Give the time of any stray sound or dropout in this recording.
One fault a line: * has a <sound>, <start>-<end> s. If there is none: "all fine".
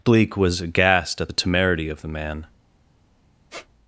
* has a squeak, 3.5-3.7 s